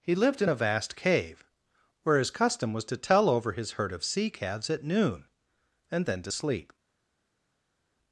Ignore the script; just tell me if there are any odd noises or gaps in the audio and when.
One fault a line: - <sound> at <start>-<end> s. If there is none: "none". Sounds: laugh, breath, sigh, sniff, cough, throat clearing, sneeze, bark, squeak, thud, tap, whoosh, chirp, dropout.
none